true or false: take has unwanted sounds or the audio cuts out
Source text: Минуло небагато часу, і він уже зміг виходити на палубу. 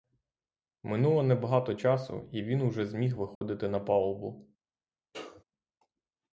true